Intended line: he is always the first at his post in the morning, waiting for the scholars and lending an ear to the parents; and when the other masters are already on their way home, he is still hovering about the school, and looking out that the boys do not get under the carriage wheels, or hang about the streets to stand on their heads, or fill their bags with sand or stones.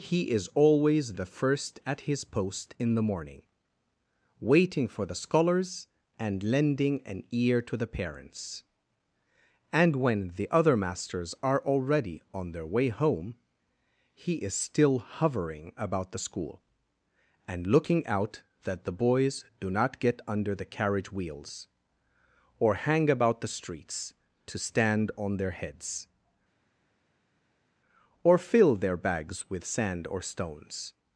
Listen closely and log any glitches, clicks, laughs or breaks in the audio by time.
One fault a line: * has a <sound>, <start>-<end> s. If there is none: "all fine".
all fine